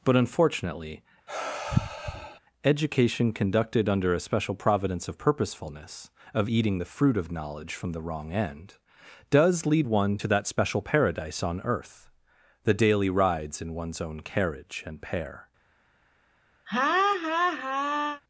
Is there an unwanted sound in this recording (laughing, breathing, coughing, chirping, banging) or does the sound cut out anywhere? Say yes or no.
yes